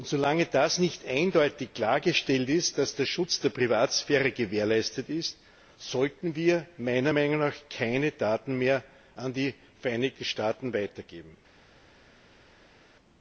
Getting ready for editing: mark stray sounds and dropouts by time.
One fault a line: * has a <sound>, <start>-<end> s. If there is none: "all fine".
all fine